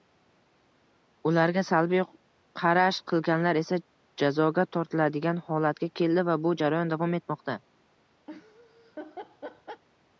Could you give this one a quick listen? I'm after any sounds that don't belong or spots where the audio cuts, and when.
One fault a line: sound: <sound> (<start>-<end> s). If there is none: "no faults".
sound: laugh (8.3-9.8 s)